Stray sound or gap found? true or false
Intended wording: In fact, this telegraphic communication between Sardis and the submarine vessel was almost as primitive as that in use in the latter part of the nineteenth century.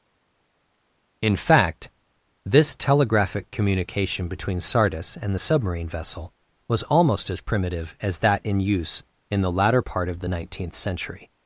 false